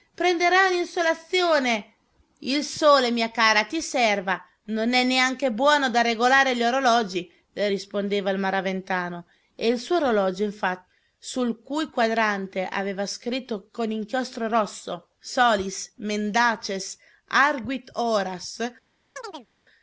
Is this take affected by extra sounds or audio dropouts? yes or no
yes